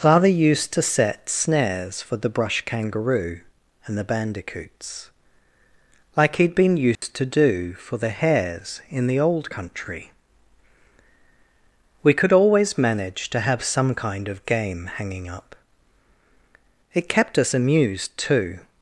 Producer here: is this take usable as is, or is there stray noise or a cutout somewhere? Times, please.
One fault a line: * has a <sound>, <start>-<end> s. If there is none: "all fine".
* has a dropout, 7.0-7.0 s